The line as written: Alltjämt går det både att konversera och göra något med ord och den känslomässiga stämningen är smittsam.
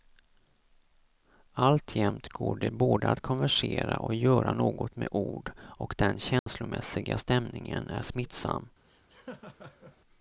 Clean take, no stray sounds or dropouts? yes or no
no